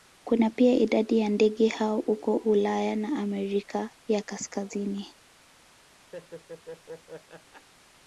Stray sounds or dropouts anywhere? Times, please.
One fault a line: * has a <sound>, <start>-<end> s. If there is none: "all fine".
* has a laugh, 6.1-7.7 s